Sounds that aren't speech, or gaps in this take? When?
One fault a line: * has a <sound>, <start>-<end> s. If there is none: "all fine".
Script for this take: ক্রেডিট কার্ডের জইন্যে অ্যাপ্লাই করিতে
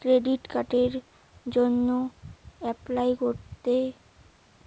all fine